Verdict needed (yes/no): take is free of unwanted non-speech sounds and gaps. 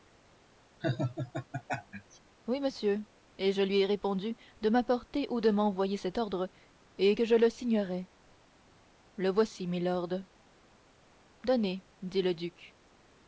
no